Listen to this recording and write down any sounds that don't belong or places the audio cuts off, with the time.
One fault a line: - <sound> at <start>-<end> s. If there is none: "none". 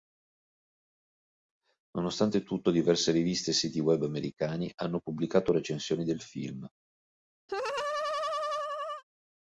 - laugh at 7.5-9.0 s